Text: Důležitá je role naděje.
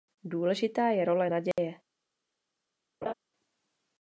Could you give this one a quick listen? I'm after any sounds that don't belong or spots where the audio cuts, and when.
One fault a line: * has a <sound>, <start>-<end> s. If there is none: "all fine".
* has a dropout, 1.5-1.6 s
* has a laugh, 3.0-3.1 s